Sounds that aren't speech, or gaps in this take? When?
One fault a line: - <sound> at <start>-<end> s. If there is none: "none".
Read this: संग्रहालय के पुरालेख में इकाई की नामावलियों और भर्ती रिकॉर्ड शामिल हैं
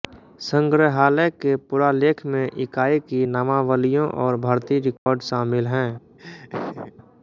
- dropout at 5.0-5.1 s
- laugh at 6.2-6.9 s